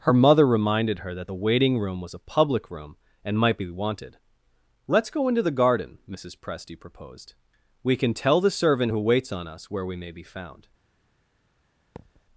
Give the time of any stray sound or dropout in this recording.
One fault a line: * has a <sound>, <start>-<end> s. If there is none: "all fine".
* has a thud, 12.0-12.2 s